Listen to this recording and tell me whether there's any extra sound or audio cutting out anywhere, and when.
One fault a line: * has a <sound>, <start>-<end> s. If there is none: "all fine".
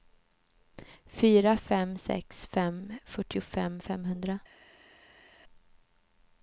all fine